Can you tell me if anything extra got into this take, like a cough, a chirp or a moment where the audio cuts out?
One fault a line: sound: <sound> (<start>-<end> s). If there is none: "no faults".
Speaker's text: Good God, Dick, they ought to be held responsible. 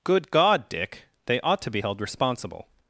no faults